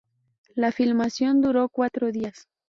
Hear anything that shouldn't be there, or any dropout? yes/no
no